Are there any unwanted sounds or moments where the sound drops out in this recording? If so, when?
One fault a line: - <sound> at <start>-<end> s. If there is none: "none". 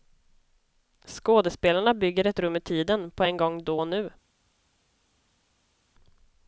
none